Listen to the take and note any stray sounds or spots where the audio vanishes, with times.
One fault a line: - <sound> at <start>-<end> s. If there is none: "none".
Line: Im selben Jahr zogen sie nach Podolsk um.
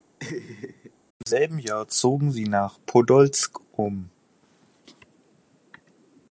- laugh at 0.2-0.9 s